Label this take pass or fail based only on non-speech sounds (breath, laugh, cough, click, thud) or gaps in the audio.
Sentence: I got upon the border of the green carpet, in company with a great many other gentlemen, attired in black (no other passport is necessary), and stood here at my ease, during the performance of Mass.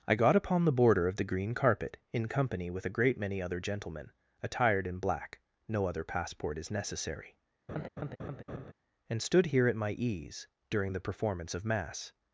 fail